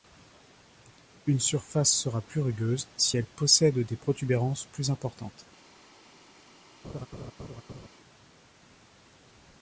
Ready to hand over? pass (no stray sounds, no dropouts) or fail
fail